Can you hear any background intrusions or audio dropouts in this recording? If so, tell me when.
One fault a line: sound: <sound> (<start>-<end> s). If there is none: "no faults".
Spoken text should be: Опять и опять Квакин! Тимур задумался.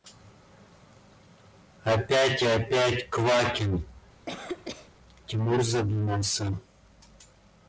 sound: cough (4.3-4.9 s)